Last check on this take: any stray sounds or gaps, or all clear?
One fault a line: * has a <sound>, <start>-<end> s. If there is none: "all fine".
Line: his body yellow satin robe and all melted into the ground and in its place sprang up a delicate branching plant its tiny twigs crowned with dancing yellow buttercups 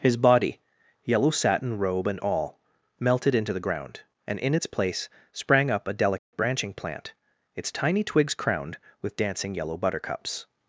* has a dropout, 6.2-6.3 s